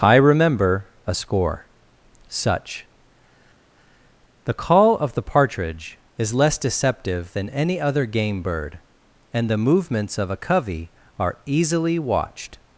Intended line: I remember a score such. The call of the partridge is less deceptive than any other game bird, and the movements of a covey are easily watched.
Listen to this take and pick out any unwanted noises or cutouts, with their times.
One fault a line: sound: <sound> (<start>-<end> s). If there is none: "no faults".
no faults